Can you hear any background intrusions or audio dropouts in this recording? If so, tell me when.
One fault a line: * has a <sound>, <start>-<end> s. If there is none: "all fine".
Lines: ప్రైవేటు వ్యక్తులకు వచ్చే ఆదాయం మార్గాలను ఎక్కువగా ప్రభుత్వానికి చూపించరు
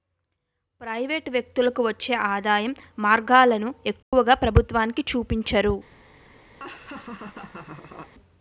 * has a dropout, 4.0-4.1 s
* has a laugh, 6.6-8.1 s